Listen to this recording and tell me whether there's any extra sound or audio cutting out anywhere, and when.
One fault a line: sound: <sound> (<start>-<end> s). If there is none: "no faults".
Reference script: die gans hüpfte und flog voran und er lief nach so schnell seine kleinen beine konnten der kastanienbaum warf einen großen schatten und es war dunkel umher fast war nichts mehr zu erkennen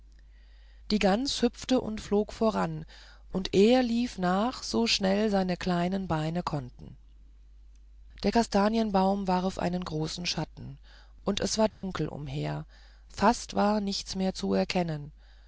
sound: dropout (11.7-11.8 s)